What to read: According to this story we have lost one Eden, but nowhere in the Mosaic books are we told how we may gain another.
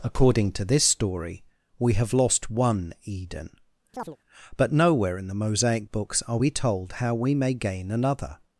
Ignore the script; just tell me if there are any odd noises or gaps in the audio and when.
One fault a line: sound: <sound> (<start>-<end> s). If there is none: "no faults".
sound: chirp (3.9-4.2 s)